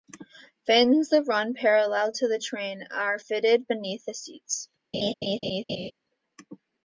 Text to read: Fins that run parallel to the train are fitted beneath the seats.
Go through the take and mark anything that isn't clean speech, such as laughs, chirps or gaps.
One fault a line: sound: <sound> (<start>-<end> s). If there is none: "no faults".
sound: laugh (4.9-5.9 s)